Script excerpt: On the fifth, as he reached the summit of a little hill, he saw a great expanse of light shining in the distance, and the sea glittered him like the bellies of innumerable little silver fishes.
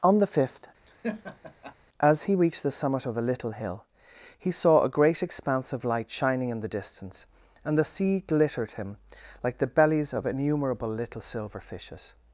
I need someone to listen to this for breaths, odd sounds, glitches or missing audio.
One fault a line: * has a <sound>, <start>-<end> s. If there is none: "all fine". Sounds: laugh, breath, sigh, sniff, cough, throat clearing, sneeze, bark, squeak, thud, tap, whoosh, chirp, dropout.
* has a laugh, 0.9-1.8 s